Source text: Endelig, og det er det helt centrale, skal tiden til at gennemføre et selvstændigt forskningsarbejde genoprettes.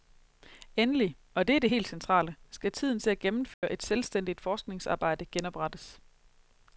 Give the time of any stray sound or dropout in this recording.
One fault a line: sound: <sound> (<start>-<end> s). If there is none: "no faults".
sound: dropout (3.5-3.6 s)